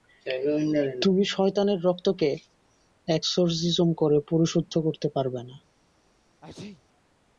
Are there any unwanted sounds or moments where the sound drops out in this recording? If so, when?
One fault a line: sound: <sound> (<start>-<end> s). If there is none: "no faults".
sound: sneeze (6.4-6.8 s)